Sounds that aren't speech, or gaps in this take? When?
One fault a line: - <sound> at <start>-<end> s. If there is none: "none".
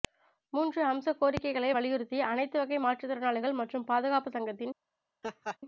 - laugh at 5.2-5.6 s